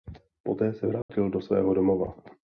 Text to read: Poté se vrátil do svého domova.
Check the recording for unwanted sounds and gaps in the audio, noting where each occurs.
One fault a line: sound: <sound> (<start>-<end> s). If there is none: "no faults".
sound: dropout (1.0-1.1 s)